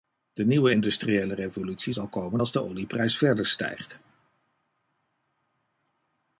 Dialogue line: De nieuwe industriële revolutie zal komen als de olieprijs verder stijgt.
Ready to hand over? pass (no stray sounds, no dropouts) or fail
pass